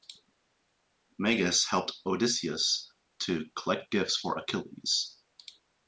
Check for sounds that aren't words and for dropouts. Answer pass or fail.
pass